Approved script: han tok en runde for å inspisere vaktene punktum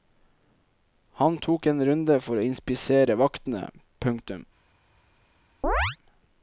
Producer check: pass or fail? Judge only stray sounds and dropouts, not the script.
fail